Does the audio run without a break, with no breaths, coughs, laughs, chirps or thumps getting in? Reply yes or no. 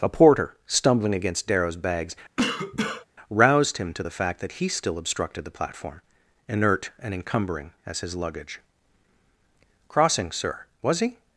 no